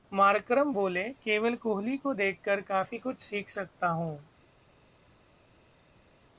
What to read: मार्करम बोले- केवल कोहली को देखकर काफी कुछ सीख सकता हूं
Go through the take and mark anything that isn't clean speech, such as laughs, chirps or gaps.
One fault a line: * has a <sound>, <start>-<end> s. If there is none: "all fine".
all fine